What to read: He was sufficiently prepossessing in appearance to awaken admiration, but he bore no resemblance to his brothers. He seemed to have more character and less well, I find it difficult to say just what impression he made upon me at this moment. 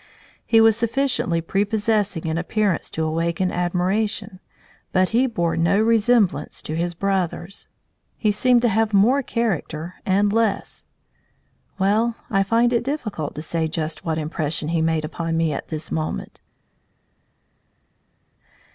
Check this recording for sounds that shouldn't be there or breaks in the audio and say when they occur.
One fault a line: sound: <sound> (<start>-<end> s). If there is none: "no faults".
no faults